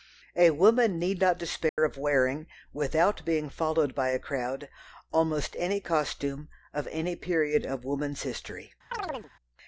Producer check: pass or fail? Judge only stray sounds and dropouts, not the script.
fail